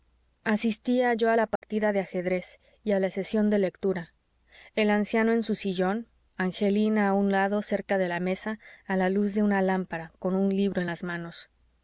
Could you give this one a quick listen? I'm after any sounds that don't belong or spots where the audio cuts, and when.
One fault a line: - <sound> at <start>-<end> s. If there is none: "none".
- dropout at 1.6-1.6 s